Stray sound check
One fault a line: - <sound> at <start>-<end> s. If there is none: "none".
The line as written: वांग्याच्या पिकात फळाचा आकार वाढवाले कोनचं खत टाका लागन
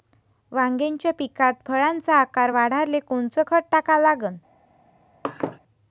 - laugh at 5.2-5.6 s